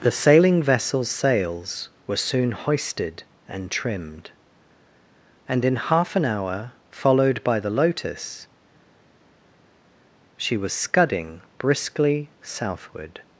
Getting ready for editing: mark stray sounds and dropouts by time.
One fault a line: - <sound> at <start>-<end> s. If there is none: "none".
none